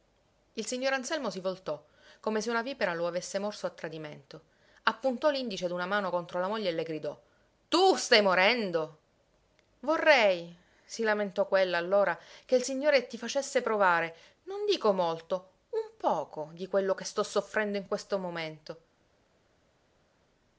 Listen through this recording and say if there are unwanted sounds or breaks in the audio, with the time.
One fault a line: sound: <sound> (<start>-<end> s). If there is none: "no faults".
no faults